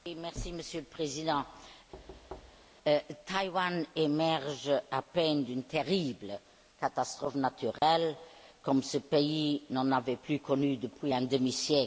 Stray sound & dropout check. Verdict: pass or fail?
fail